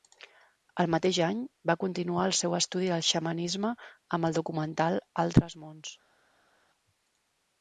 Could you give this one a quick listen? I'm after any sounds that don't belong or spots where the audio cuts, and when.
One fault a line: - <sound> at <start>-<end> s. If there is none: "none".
none